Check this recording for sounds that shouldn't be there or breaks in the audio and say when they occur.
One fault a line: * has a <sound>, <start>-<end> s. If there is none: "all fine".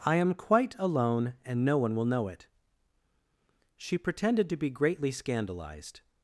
all fine